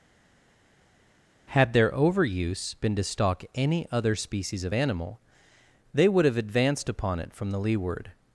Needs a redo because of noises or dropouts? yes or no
no